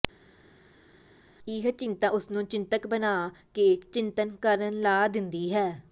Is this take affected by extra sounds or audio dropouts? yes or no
no